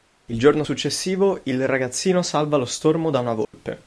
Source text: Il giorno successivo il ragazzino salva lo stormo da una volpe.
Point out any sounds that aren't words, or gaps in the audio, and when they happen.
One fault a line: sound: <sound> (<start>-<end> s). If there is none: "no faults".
sound: dropout (3.4-3.5 s)